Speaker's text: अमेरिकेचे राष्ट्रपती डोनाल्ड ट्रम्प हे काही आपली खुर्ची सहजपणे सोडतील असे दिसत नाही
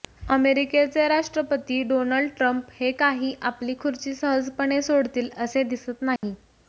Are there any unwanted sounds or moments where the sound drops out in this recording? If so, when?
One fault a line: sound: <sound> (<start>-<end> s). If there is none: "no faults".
sound: dropout (6.2-6.2 s)